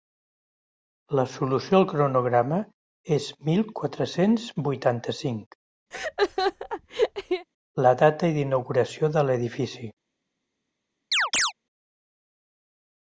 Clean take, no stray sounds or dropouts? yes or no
no